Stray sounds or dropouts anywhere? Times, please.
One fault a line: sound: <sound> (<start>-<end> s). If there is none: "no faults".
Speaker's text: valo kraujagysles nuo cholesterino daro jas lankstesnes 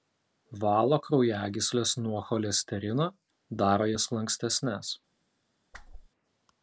sound: whoosh (5.7-6.1 s)